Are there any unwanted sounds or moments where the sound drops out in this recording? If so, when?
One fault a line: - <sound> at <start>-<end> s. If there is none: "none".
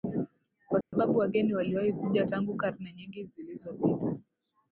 - dropout at 0.8-0.9 s